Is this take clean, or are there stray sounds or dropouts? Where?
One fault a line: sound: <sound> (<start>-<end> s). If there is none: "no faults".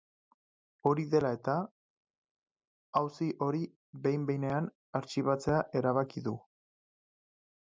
no faults